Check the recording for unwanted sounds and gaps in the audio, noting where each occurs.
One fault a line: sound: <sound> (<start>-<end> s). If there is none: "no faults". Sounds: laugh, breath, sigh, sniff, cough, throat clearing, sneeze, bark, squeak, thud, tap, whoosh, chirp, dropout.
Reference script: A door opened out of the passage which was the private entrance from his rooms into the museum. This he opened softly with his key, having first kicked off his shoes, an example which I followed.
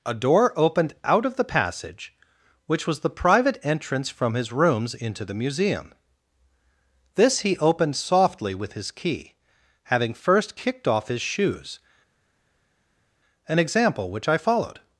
no faults